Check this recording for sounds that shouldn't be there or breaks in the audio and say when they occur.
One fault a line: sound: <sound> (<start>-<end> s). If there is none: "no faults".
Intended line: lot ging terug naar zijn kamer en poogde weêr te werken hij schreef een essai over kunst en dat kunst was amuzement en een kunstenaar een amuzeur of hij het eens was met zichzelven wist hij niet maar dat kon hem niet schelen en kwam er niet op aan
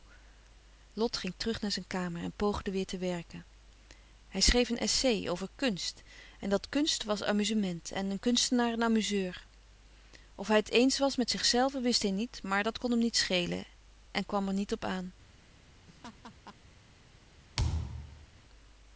sound: laugh (15.9-16.6 s)
sound: thud (17.6-18.3 s)